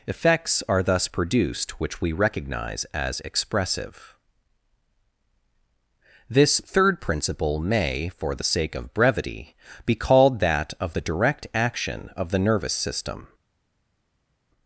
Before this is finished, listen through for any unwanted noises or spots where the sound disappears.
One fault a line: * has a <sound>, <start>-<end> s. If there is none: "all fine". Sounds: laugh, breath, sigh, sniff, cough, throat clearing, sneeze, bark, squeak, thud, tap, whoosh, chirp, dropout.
all fine